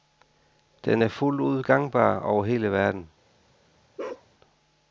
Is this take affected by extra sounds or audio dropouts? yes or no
yes